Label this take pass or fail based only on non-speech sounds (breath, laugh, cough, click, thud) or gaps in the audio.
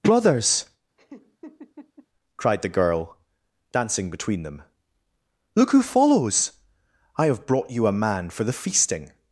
fail